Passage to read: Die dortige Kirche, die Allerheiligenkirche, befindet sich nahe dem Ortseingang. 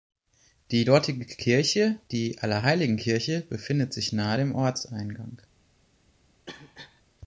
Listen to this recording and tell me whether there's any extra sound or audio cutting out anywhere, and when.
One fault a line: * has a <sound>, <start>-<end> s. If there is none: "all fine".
* has a cough, 6.5-7.0 s